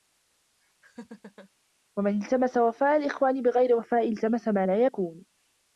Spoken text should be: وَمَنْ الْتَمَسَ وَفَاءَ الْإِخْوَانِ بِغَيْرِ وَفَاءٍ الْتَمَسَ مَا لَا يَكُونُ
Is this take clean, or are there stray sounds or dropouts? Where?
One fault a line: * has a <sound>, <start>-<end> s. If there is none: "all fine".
* has a laugh, 0.8-1.5 s